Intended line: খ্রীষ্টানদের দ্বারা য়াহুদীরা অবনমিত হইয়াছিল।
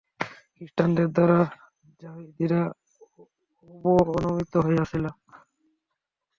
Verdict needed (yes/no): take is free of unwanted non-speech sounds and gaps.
yes